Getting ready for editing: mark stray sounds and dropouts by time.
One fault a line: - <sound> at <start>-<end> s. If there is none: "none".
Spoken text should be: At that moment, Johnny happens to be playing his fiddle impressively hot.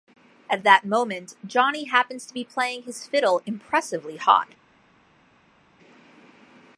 none